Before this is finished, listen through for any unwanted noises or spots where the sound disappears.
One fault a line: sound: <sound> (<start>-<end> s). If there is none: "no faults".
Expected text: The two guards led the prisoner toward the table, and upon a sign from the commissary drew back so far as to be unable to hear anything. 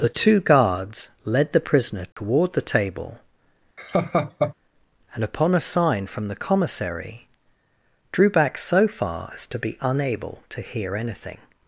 sound: dropout (2.1-2.2 s)
sound: laugh (3.8-4.5 s)